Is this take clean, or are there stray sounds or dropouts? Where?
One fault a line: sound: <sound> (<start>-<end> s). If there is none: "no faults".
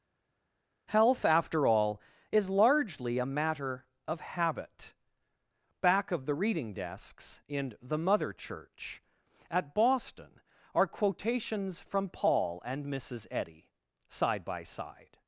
no faults